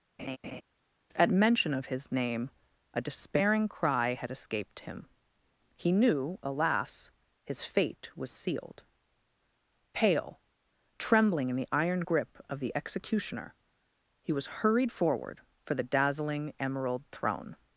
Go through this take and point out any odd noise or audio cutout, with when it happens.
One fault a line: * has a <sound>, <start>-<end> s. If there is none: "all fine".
* has a laugh, 0.2-0.6 s